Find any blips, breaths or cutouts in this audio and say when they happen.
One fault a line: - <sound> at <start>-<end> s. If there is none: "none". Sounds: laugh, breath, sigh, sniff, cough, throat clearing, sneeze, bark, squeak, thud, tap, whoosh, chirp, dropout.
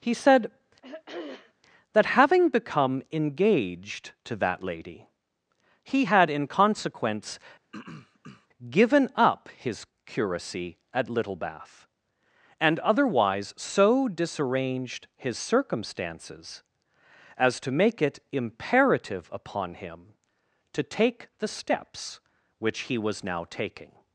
- throat clearing at 0.8-1.5 s
- throat clearing at 7.7-8.5 s